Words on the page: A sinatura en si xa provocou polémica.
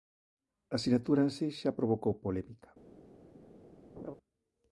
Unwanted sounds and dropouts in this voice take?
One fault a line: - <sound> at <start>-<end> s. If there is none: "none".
- laugh at 4.0-4.1 s